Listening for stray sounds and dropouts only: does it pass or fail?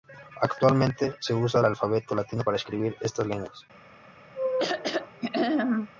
fail